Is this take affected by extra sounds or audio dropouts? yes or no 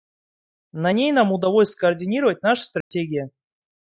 yes